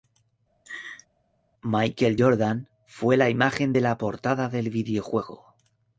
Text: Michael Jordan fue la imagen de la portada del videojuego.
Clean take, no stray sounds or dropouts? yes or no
no